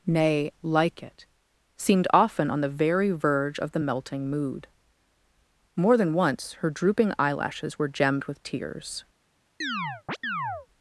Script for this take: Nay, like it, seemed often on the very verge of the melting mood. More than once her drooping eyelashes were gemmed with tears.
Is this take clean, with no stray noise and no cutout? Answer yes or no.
no